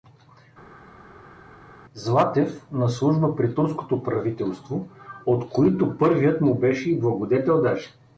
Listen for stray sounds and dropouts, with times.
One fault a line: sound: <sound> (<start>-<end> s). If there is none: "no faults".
no faults